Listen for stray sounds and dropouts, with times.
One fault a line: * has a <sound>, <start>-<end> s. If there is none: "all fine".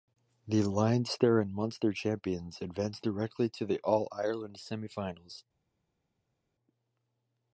all fine